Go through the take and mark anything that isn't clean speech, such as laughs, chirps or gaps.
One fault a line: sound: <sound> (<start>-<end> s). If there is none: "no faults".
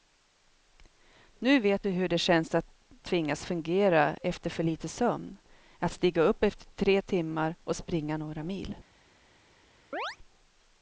sound: chirp (9.9-10.2 s)